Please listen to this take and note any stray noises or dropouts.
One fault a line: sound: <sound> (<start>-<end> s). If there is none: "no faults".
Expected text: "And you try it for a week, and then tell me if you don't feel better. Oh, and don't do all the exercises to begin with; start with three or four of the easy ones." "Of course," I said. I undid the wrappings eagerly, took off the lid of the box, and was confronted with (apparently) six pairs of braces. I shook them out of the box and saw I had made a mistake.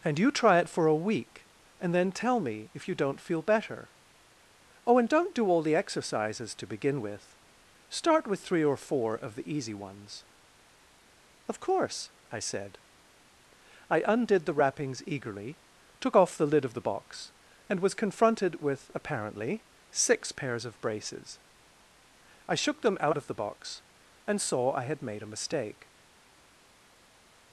no faults